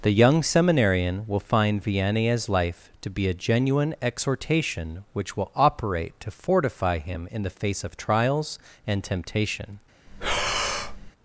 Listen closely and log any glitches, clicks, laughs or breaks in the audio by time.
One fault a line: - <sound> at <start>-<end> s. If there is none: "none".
- breath at 10.1-11.1 s